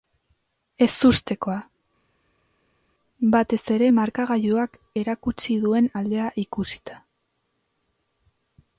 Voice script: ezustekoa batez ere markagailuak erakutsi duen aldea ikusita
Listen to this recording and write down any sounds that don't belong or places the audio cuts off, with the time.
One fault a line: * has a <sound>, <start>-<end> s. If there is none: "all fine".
all fine